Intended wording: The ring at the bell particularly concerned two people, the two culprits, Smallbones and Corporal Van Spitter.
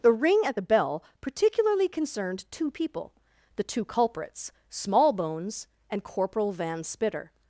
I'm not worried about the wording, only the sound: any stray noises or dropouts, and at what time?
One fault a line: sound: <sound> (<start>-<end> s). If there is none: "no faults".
no faults